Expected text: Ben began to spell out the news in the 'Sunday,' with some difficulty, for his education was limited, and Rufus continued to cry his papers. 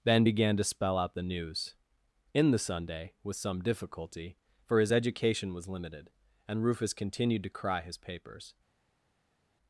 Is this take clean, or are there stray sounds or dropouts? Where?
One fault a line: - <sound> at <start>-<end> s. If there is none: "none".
none